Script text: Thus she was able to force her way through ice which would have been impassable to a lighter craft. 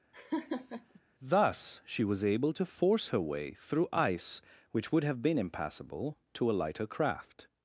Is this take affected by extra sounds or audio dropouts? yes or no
yes